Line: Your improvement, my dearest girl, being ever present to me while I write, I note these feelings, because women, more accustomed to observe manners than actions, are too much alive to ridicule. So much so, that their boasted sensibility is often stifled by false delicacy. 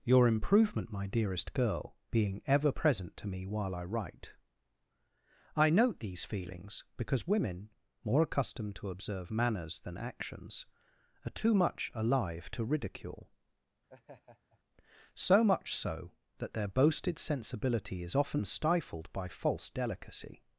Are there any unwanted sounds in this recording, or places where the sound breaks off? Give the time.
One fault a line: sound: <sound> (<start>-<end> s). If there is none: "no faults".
sound: laugh (13.9-14.6 s)